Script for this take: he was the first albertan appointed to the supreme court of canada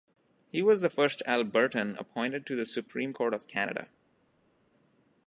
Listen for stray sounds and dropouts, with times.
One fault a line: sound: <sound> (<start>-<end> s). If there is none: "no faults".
no faults